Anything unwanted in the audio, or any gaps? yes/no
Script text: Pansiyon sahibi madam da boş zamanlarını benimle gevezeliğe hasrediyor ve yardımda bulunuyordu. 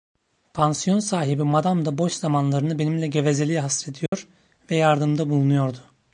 yes